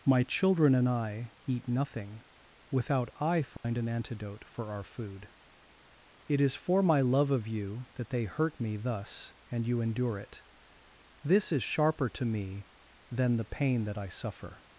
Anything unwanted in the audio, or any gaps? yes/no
yes